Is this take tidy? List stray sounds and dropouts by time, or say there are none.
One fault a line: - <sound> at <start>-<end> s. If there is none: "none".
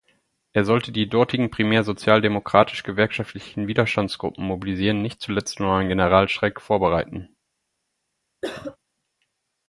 - cough at 8.4-8.8 s